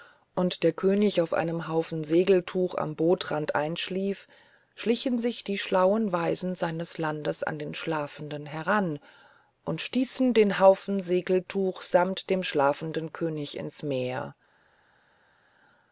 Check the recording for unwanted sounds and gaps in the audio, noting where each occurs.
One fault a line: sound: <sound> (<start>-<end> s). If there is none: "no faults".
no faults